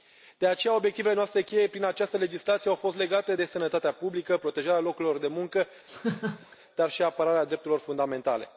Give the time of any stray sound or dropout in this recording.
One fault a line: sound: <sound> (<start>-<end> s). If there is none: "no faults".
sound: laugh (5.9-6.6 s)